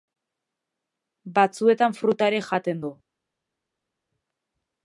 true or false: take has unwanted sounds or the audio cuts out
false